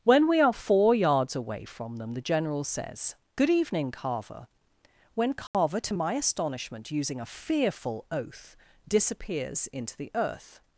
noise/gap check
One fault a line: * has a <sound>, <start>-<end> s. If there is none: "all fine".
* has a dropout, 5.5-5.5 s